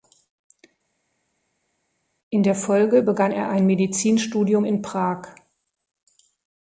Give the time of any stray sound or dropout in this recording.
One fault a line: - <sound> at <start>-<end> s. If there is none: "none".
none